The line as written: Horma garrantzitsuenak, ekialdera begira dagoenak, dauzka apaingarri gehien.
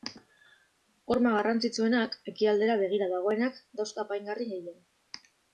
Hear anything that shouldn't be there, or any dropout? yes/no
no